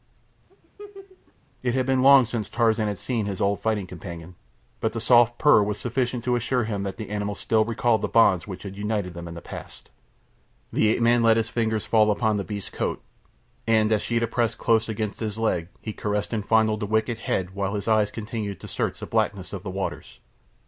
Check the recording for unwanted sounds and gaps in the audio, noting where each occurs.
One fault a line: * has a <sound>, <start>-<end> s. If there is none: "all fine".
* has a laugh, 0.5-1.3 s